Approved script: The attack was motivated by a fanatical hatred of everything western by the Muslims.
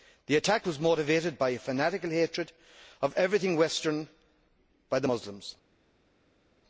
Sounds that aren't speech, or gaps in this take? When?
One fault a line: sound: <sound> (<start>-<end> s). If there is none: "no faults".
no faults